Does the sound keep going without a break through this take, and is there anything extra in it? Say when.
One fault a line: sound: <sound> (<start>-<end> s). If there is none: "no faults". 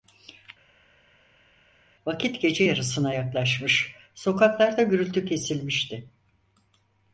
no faults